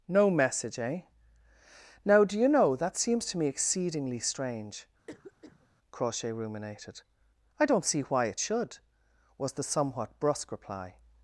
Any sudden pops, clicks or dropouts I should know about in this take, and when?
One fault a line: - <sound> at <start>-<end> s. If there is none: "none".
- cough at 5.1-5.7 s